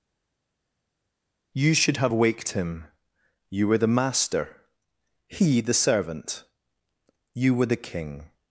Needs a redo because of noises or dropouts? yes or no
no